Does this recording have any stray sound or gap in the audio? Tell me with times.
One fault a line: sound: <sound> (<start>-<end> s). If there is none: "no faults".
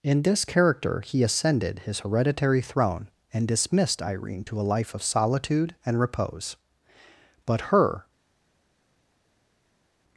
no faults